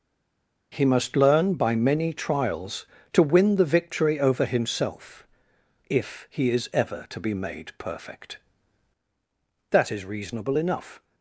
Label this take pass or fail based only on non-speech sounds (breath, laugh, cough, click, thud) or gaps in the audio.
pass